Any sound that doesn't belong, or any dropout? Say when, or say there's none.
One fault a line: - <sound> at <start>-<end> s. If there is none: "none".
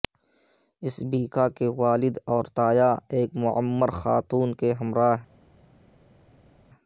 none